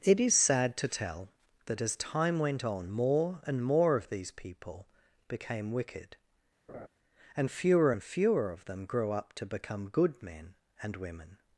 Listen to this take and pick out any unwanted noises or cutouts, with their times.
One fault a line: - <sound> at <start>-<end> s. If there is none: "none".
- laugh at 6.7-6.9 s